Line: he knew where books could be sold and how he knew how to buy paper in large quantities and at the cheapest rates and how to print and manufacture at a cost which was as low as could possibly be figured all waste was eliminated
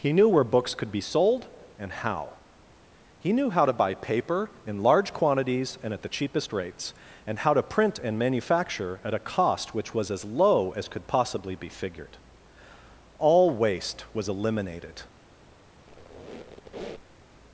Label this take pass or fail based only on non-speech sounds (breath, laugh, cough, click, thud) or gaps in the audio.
fail